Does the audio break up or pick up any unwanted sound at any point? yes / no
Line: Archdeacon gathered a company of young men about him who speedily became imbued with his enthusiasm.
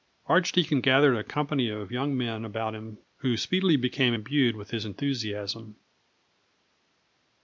no